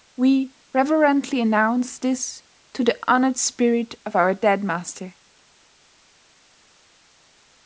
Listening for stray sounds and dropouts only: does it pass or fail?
pass